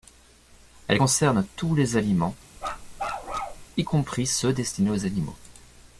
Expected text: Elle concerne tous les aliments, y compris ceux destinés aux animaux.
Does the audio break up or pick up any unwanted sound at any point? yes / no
yes